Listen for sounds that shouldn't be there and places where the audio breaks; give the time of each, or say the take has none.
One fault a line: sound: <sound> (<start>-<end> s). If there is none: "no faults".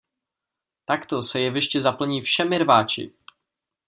no faults